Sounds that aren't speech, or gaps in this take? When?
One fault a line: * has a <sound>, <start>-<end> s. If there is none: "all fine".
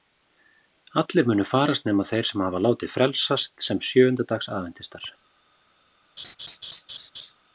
* has a laugh, 6.2-7.3 s